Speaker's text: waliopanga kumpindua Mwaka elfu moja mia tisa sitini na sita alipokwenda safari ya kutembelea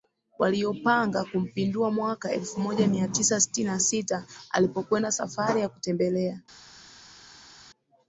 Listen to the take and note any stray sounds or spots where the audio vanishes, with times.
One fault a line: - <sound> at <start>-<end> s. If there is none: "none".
none